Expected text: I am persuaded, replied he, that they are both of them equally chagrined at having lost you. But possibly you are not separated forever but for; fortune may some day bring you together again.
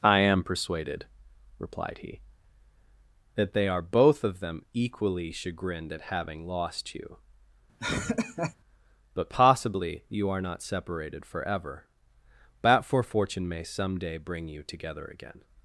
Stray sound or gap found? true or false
true